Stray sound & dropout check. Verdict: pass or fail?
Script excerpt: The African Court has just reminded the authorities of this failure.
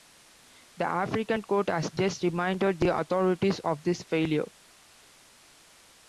pass